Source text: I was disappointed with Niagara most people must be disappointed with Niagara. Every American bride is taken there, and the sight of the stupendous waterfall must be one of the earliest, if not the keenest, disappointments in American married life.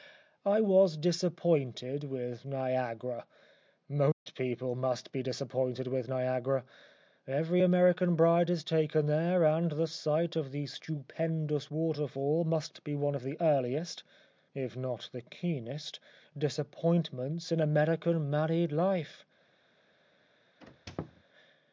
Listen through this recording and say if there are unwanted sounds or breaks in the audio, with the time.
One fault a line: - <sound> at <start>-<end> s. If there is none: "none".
- dropout at 4.1-4.3 s
- squeak at 20.6-21.2 s